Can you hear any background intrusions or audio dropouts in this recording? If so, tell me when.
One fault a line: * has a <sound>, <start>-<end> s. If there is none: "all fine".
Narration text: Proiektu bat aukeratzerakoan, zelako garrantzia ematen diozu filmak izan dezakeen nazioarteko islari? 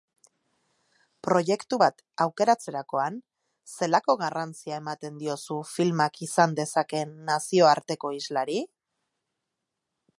all fine